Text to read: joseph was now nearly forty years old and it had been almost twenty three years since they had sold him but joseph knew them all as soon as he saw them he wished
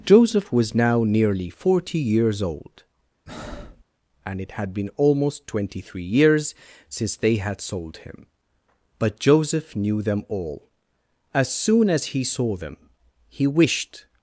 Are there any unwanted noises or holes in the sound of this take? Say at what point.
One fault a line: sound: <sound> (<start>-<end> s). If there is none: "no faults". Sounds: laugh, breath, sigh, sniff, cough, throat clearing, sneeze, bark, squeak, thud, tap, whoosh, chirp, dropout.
sound: breath (3.3-3.8 s)